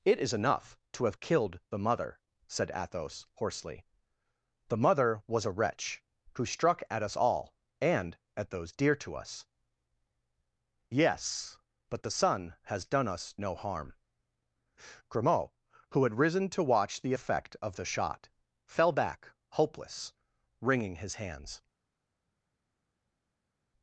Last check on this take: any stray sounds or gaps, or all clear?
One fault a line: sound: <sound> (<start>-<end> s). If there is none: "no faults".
no faults